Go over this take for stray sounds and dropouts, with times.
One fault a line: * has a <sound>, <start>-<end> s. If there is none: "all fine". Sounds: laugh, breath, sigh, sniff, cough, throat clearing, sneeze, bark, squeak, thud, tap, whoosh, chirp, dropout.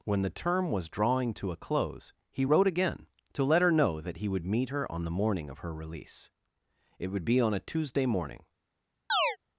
* has a chirp, 9.1-9.4 s